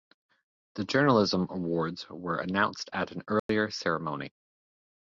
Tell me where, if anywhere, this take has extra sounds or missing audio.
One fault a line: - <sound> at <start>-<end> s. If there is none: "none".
- dropout at 3.4-3.5 s